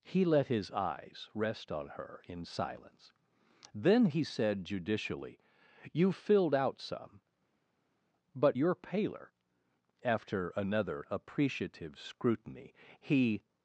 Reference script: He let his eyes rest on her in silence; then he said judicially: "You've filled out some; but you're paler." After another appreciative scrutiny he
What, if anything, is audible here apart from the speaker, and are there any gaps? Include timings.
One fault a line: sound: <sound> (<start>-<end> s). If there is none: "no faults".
no faults